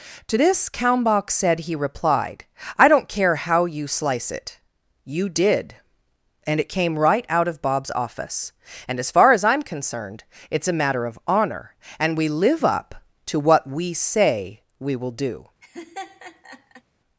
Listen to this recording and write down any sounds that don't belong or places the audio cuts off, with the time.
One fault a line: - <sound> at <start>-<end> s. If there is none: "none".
- laugh at 15.6-16.8 s